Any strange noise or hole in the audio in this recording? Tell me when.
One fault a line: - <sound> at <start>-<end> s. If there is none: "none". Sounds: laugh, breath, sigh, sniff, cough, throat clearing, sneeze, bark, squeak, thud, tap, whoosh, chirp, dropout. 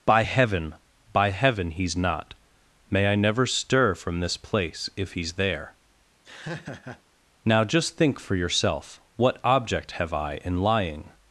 - laugh at 6.2-7.0 s